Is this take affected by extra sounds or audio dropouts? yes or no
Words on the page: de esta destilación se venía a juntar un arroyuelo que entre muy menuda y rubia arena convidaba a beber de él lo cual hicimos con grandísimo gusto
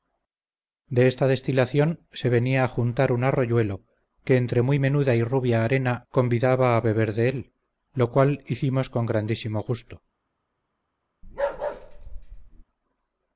yes